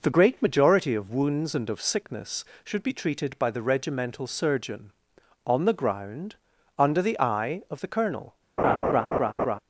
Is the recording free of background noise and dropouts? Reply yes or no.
no